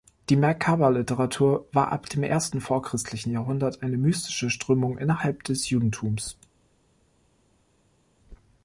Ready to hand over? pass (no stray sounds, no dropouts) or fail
pass